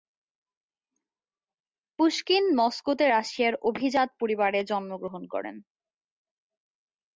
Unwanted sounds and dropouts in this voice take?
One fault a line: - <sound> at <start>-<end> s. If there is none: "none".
none